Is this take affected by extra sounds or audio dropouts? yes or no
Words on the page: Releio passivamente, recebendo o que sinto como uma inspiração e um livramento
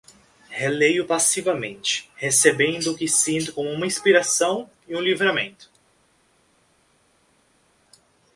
no